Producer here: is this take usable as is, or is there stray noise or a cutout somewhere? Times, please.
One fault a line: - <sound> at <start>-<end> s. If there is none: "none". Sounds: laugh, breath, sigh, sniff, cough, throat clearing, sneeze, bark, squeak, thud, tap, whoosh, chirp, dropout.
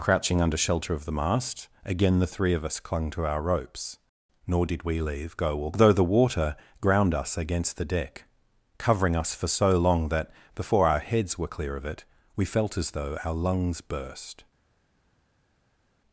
none